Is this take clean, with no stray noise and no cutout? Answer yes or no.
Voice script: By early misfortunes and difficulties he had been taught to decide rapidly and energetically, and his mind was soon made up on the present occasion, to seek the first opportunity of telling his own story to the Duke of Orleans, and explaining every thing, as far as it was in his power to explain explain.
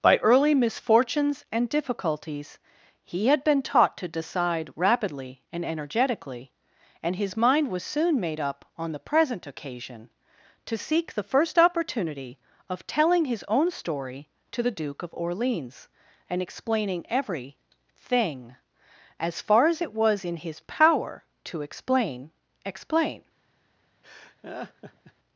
no